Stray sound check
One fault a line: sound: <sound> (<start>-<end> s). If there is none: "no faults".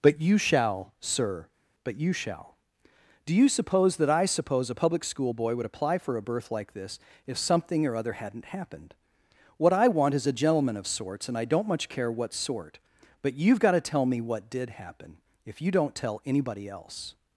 no faults